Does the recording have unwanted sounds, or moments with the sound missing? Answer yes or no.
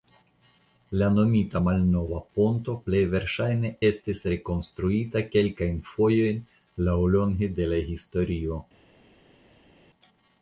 no